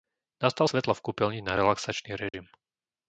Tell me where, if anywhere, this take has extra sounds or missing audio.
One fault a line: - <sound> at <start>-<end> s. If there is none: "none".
- dropout at 2.3-2.3 s